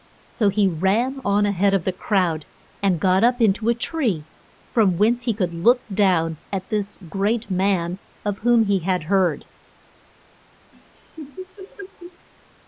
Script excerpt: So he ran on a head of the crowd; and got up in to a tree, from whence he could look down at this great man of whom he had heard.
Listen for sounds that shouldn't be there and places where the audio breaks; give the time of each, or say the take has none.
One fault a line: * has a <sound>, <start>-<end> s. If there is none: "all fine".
* has a laugh, 10.7-12.3 s